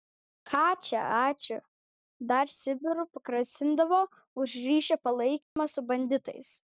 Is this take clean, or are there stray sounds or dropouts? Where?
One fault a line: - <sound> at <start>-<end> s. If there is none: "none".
- dropout at 5.4-5.6 s